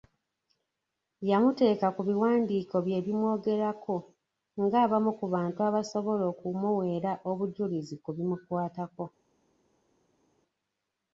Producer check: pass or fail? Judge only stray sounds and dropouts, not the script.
pass